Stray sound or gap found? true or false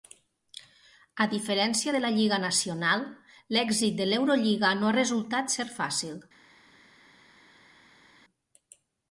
false